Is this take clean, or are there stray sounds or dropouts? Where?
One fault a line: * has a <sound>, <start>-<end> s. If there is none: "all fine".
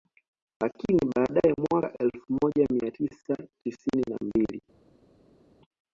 all fine